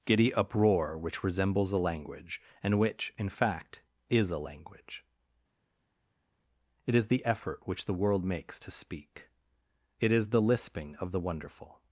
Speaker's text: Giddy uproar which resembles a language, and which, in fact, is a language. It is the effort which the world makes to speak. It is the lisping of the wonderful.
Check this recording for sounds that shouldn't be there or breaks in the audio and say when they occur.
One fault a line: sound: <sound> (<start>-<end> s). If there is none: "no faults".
no faults